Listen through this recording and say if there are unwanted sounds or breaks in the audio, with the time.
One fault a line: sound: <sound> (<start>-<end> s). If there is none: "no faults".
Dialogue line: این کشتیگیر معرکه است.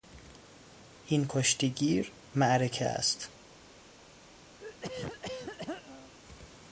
sound: throat clearing (4.6-6.1 s)